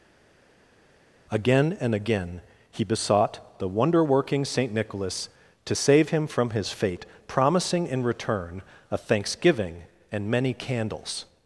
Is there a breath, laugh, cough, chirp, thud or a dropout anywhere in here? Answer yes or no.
no